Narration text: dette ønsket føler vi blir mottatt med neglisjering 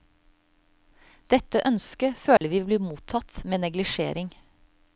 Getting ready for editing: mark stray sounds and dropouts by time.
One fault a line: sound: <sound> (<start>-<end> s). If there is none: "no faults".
sound: dropout (2.4-2.4 s)